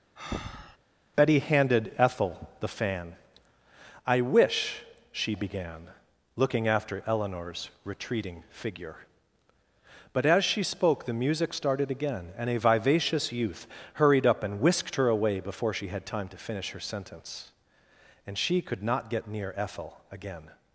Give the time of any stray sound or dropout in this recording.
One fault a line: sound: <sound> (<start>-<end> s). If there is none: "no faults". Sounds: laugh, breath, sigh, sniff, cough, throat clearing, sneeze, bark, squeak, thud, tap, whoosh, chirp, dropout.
sound: breath (0.2-0.8 s)